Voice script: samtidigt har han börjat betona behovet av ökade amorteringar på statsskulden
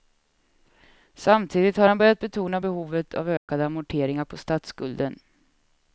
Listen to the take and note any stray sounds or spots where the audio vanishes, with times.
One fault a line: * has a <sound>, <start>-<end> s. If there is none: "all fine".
* has a dropout, 3.4-3.5 s